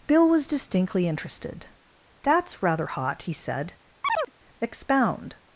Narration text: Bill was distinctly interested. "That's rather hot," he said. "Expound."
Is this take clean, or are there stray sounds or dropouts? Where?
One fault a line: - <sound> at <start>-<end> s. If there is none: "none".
- chirp at 4.0-4.3 s